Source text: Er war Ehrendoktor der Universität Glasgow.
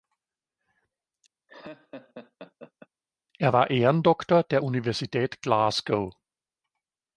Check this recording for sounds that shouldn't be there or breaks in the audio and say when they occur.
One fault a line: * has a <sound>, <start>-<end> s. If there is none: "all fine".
* has a laugh, 1.5-2.9 s